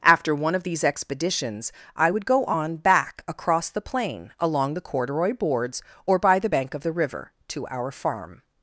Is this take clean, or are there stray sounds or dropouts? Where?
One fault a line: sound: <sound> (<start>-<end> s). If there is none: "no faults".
no faults